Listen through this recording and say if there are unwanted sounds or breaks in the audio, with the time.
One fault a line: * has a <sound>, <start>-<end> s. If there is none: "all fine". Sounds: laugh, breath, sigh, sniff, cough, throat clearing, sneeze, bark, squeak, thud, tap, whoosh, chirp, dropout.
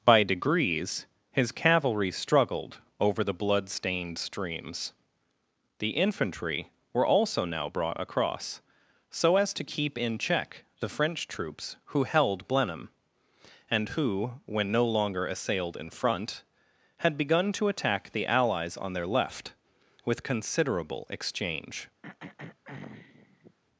* has a throat clearing, 22.0-23.6 s